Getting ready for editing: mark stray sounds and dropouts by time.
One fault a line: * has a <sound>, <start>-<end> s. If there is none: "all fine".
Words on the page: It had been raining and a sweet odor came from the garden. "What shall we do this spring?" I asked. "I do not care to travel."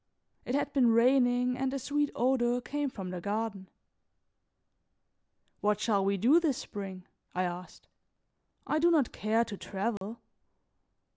* has a dropout, 10.0-10.0 s